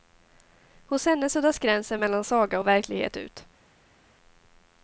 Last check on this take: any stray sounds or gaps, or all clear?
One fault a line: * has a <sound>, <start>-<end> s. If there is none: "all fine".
all fine